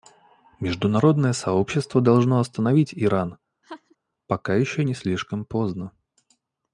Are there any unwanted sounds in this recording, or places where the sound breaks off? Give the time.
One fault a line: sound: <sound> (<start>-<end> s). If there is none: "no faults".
sound: laugh (3.6-4.0 s)